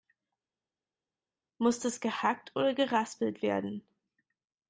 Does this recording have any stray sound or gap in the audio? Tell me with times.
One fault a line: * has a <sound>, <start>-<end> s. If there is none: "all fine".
all fine